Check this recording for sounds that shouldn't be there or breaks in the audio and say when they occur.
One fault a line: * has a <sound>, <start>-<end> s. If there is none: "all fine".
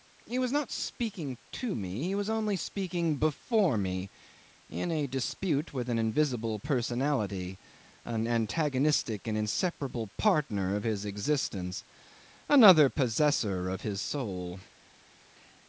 all fine